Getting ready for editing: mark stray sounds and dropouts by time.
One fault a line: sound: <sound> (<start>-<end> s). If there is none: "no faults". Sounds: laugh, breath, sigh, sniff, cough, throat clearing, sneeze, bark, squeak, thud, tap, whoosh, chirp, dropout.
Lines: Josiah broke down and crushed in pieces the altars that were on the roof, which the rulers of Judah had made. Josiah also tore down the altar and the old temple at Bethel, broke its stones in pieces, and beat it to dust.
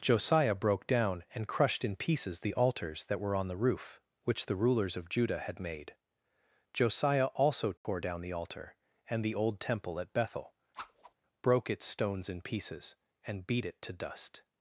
sound: dropout (7.8-7.8 s)
sound: whoosh (10.7-11.1 s)